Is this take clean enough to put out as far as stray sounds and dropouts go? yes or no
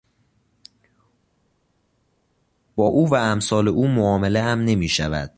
yes